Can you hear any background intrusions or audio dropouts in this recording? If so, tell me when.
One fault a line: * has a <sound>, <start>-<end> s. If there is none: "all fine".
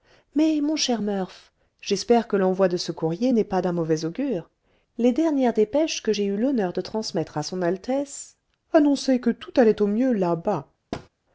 * has a thud, 10.9-11.1 s